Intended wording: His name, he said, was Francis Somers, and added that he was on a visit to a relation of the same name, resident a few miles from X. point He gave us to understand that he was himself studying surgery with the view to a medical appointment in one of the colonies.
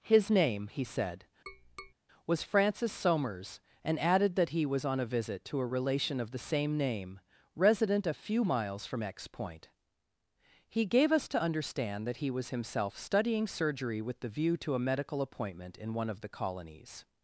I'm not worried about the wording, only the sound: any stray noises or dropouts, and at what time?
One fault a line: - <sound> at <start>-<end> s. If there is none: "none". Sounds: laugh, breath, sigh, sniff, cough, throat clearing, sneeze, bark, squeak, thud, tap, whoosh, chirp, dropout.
- tap at 1.5-1.9 s